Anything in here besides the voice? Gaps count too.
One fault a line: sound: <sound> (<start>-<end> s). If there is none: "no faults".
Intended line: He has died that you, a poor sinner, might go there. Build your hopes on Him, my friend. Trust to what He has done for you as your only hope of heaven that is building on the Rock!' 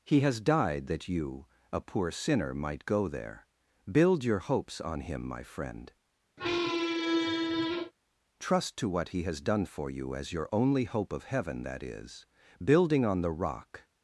sound: squeak (6.4-7.9 s)